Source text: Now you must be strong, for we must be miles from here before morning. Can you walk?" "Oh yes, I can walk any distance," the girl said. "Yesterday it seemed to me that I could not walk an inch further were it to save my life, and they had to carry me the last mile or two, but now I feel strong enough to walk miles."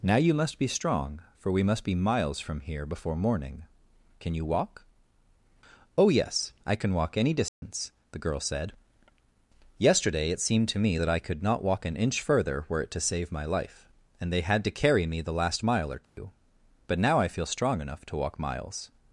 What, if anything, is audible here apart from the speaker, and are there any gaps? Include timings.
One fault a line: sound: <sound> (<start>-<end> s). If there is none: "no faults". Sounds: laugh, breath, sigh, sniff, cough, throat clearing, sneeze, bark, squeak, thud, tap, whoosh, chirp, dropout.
sound: dropout (7.5-7.6 s)
sound: dropout (16.0-16.2 s)